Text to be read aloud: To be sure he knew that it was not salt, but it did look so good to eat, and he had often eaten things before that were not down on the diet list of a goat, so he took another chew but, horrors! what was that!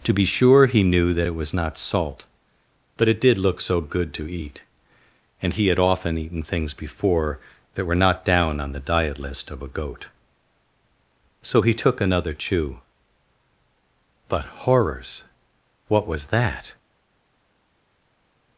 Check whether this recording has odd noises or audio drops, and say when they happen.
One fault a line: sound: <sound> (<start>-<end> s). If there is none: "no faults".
no faults